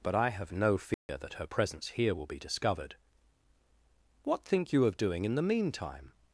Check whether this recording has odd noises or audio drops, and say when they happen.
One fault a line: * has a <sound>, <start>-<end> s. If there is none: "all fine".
* has a dropout, 0.9-1.1 s